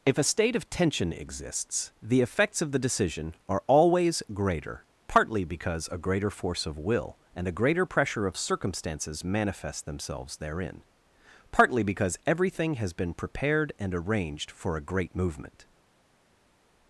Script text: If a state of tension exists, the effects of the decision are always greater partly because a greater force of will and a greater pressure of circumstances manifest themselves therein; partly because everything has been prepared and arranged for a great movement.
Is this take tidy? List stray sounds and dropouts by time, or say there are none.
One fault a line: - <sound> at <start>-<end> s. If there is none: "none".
none